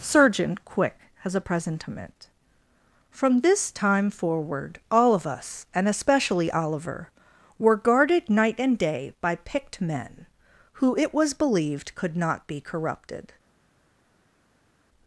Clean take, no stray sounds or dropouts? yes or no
yes